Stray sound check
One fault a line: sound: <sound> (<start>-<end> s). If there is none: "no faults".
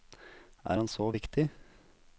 no faults